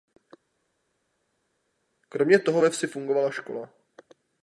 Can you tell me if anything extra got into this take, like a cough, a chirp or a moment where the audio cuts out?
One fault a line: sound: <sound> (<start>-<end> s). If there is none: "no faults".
no faults